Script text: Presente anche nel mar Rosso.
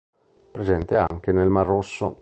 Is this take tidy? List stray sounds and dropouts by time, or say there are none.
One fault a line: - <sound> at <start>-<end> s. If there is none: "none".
- dropout at 1.1-1.1 s